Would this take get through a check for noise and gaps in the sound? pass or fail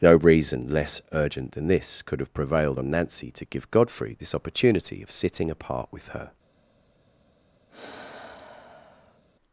fail